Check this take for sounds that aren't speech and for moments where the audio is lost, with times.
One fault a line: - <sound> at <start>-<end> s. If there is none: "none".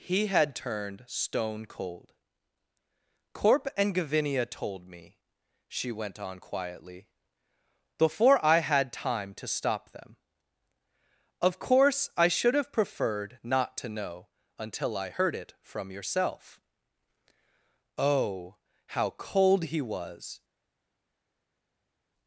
none